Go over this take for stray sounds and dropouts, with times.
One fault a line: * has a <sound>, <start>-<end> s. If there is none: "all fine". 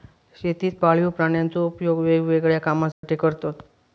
* has a dropout, 2.9-3.0 s